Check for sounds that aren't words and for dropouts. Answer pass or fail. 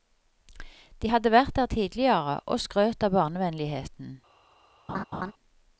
fail